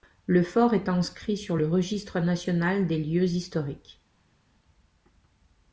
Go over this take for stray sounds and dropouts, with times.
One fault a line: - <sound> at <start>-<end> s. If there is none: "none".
none